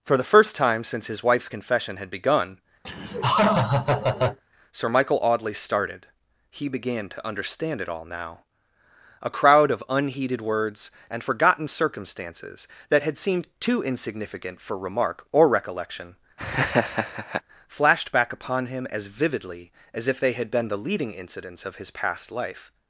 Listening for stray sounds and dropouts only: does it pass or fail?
fail